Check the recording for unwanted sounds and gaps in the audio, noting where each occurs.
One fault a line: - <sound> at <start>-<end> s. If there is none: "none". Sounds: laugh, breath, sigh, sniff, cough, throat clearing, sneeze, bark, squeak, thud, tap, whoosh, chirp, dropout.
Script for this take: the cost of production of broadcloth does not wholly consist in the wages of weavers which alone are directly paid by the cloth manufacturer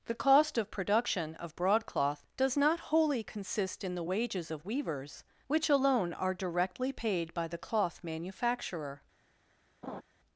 - laugh at 9.8-10.0 s